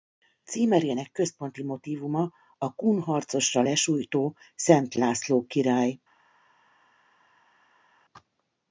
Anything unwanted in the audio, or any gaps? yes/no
no